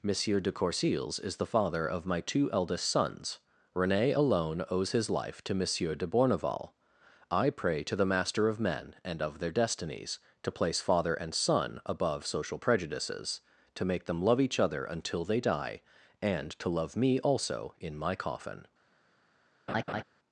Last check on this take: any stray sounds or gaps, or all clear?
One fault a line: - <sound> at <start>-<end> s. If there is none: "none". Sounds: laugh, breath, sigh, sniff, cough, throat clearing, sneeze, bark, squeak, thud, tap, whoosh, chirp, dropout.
- laugh at 19.7-20.0 s